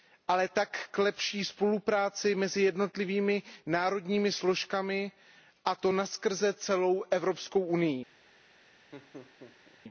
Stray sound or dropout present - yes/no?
yes